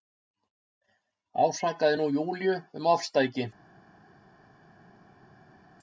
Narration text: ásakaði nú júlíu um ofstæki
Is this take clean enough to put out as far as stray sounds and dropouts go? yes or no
yes